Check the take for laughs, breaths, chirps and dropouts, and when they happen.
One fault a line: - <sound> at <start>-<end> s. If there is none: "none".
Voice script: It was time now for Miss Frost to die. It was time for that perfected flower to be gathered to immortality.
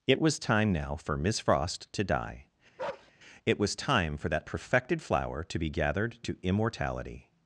- bark at 2.8-3.1 s